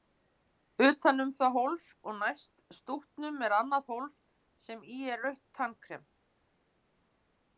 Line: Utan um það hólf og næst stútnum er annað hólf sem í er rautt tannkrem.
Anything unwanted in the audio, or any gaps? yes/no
no